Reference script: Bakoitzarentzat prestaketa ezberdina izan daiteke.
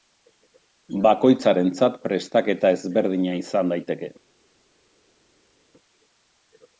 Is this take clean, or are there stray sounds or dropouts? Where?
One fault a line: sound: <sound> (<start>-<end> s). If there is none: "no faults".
no faults